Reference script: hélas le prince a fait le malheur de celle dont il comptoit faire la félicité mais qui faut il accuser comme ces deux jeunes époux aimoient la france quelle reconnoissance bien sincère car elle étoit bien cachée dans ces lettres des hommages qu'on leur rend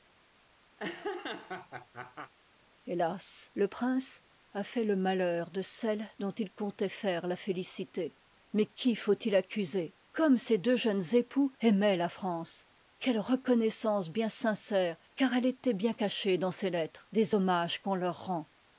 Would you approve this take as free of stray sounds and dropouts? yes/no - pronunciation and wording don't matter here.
no